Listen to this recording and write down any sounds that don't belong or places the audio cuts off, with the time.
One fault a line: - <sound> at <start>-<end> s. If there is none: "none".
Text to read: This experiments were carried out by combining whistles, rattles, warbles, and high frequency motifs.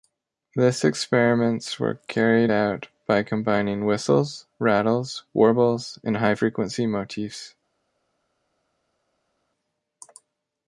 none